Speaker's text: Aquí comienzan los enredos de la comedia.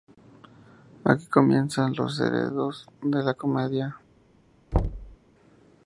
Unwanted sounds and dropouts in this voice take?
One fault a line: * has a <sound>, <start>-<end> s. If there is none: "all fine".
* has a thud, 4.7-5.2 s